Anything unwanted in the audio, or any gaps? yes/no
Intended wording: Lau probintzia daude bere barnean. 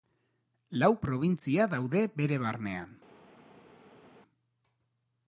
no